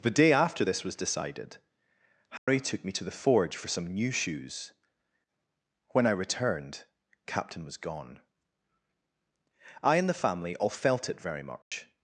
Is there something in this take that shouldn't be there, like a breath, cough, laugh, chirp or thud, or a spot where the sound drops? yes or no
yes